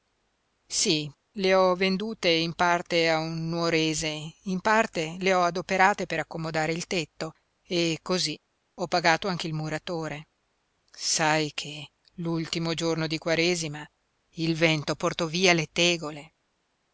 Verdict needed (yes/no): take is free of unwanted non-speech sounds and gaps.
yes